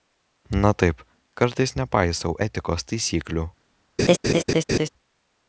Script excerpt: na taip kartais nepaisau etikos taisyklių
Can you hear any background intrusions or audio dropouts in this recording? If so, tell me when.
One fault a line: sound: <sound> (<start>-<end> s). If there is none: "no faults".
sound: laugh (4.0-4.9 s)